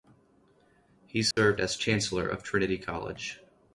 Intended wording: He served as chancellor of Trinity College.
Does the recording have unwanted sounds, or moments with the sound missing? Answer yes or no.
yes